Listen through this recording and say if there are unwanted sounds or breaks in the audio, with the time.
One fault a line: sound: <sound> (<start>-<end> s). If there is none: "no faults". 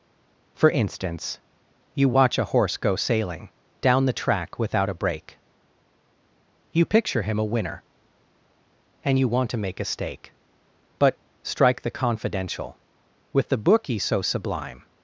no faults